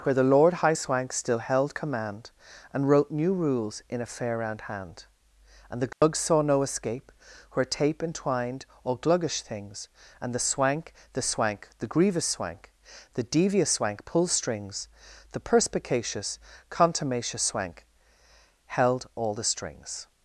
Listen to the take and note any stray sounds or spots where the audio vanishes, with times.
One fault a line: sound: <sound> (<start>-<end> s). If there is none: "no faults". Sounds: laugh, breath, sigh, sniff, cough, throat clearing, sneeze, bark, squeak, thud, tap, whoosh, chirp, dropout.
sound: dropout (5.9-6.0 s)